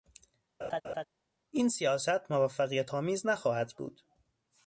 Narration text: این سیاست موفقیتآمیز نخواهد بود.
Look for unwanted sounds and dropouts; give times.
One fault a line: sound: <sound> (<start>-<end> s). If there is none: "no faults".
sound: laugh (0.6-1.0 s)